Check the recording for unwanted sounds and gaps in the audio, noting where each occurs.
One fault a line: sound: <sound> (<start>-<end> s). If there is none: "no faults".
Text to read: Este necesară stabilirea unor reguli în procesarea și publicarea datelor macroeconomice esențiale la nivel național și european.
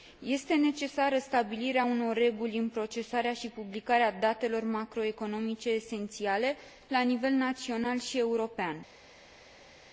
no faults